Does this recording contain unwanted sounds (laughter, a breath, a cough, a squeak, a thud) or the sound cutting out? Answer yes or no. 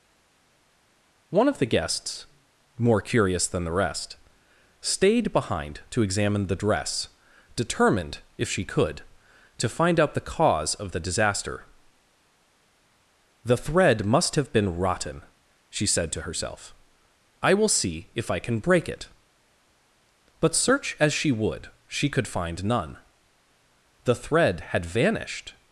no